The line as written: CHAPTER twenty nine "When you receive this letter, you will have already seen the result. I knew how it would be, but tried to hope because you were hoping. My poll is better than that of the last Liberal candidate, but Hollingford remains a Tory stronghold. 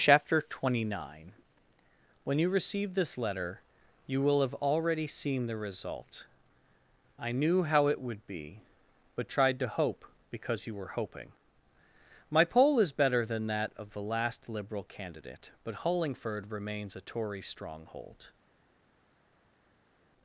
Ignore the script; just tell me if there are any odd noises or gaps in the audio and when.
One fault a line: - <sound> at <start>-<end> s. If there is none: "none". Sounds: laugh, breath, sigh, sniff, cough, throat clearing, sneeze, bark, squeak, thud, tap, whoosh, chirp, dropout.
none